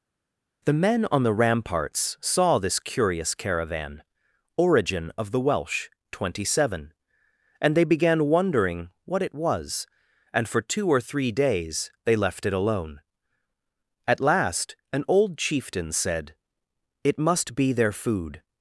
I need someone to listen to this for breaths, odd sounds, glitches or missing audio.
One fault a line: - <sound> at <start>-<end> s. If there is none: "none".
none